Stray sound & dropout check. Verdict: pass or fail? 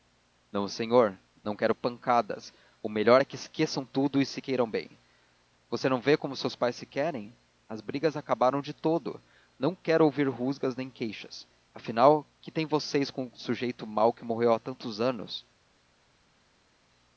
pass